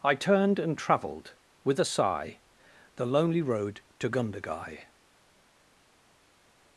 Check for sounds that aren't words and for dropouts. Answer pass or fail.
pass